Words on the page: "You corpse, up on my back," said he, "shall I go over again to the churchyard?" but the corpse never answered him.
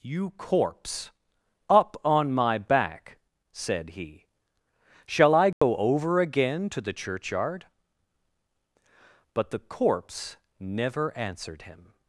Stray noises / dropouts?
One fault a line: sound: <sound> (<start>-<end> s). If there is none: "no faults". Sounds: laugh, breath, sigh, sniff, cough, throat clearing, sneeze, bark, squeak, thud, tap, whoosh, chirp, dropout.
sound: dropout (5.5-5.6 s)